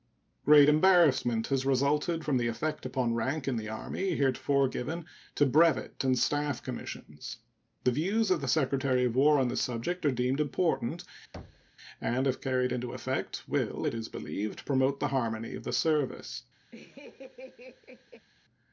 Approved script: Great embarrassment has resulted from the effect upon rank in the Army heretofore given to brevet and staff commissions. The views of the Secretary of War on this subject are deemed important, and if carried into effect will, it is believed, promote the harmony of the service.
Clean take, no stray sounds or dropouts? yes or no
no